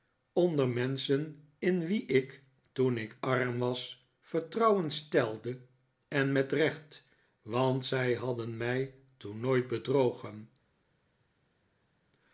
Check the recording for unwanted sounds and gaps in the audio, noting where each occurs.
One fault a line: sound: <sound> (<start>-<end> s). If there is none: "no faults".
no faults